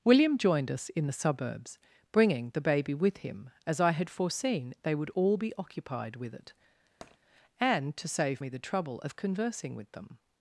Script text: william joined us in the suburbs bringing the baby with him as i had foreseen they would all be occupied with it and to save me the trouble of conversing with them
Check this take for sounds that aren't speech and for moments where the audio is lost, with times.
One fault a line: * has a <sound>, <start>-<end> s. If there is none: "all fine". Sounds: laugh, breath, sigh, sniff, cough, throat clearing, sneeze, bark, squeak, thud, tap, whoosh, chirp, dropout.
* has a tap, 7.0-7.2 s